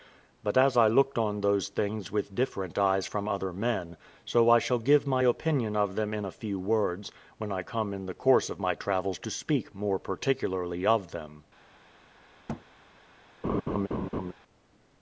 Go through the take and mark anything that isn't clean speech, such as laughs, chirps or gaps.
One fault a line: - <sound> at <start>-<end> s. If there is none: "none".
- thud at 12.5-12.6 s
- laugh at 13.4-14.3 s